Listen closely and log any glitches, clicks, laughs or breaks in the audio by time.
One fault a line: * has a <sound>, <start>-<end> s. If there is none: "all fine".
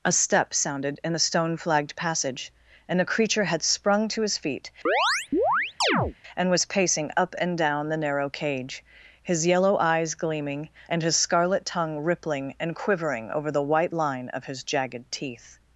* has a chirp, 4.9-6.2 s